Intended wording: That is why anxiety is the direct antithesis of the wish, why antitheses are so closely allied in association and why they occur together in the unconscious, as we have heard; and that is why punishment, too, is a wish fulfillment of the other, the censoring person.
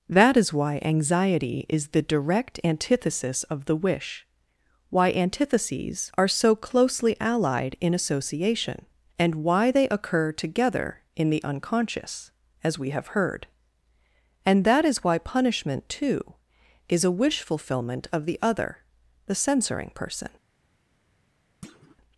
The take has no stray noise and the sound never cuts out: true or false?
false